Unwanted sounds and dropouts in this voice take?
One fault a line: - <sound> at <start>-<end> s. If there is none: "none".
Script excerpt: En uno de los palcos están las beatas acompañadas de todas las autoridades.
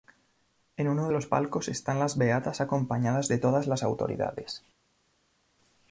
none